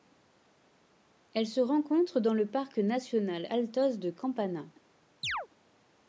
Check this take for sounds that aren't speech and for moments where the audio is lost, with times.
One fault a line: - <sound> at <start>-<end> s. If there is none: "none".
- chirp at 5.2-5.5 s